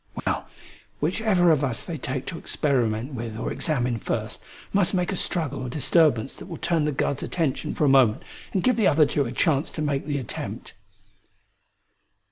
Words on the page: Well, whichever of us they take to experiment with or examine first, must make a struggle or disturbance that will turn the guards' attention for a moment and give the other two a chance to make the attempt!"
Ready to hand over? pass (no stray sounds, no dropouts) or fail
fail